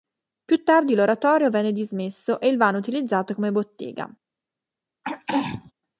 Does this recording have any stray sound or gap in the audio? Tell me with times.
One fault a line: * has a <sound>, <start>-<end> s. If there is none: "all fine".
* has a throat clearing, 5.0-5.7 s